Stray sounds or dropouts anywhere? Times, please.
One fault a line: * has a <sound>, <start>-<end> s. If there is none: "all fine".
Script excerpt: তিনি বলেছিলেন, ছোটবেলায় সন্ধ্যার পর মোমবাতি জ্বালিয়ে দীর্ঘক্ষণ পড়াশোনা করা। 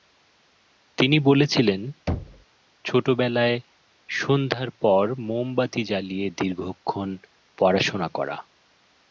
* has a thud, 2.1-2.4 s